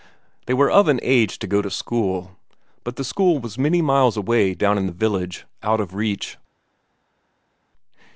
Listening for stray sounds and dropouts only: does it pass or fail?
pass